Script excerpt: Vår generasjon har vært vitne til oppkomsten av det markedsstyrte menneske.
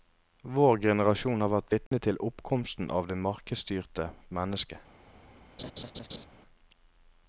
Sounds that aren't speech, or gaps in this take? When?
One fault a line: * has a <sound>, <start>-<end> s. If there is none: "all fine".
* has a dropout, 1.9-1.9 s
* has a laugh, 5.6-6.3 s